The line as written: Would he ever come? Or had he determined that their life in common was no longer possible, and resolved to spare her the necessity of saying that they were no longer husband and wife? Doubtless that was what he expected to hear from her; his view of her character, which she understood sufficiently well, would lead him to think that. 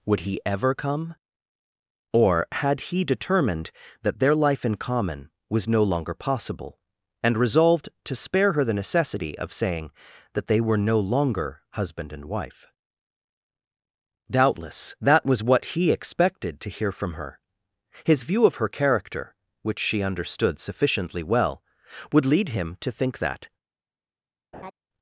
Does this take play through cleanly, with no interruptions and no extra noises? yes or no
no